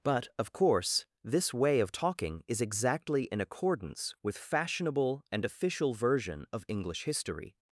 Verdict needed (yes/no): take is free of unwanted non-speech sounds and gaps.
yes